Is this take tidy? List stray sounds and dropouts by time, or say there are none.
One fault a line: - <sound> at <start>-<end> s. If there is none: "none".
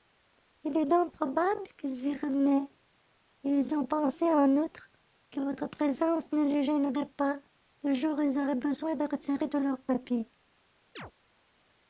- chirp at 11.0-11.1 s